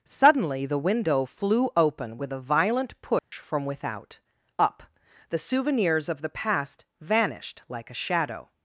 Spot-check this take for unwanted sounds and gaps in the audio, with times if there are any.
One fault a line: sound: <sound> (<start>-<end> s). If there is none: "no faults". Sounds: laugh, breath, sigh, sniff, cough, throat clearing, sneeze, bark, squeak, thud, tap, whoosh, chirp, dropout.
sound: dropout (3.2-3.3 s)